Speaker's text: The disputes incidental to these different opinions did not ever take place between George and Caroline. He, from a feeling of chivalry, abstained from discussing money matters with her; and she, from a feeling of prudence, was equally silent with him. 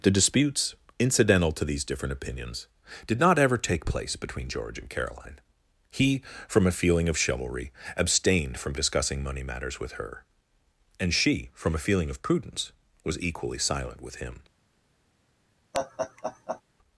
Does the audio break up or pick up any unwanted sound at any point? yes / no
yes